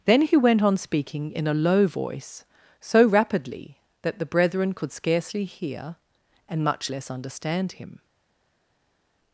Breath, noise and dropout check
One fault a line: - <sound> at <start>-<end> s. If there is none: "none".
none